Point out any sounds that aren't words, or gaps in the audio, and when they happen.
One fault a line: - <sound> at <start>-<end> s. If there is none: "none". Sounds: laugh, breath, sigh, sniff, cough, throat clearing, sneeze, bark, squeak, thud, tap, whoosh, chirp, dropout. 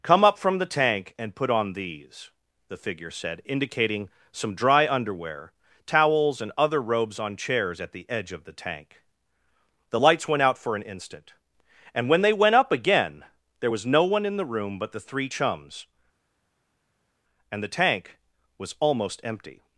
none